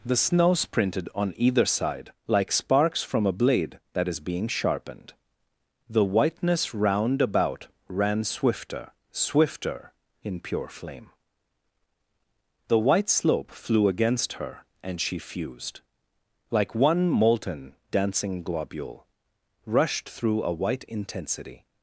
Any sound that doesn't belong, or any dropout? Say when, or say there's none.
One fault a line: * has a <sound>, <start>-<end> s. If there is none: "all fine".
all fine